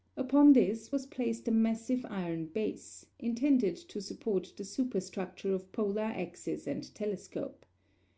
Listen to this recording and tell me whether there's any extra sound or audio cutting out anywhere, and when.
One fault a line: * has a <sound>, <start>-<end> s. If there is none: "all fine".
all fine